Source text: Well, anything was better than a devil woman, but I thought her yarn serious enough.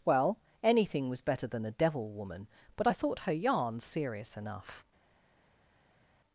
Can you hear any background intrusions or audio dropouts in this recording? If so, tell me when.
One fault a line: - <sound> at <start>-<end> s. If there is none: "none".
none